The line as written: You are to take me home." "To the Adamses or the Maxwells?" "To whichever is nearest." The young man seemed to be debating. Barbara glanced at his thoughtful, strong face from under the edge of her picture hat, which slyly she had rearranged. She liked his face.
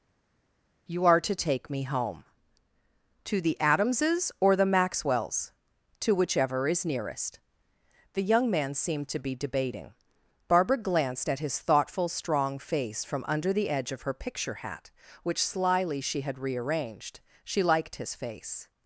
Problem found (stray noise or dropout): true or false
false